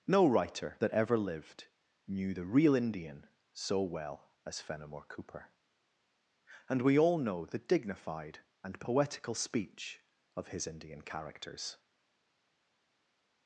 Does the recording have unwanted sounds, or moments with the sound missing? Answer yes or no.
no